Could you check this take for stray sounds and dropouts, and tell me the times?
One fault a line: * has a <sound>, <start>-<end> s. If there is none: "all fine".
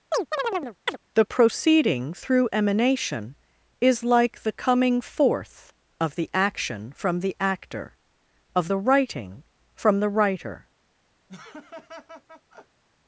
* has a chirp, 0.1-1.0 s
* has a laugh, 11.3-12.8 s